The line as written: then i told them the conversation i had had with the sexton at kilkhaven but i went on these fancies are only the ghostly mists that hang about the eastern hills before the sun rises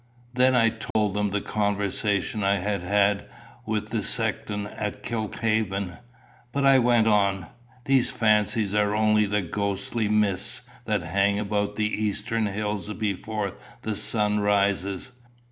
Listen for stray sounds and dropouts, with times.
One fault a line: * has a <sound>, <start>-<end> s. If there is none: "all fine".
* has a dropout, 0.9-1.0 s